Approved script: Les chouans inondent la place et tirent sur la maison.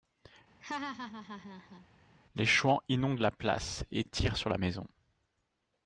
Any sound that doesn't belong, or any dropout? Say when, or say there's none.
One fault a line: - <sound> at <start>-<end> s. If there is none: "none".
- laugh at 0.6-1.9 s